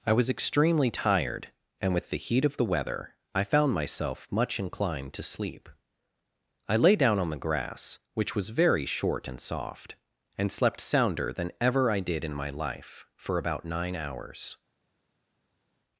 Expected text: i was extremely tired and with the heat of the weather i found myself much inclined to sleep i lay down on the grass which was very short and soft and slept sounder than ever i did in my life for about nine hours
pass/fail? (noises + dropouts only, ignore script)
pass